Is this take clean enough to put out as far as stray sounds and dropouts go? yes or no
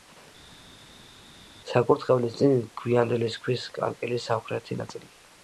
yes